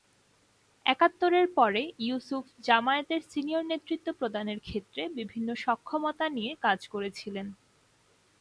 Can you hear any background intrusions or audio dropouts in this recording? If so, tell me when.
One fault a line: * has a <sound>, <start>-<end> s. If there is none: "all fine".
all fine